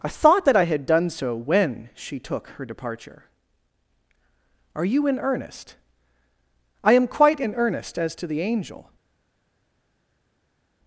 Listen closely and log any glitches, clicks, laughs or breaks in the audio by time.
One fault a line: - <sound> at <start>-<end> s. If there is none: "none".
none